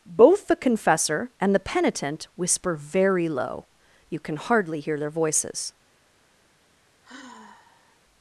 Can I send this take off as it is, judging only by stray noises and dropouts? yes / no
no